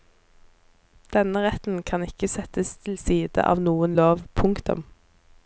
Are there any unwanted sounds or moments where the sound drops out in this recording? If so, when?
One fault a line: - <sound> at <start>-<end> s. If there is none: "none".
none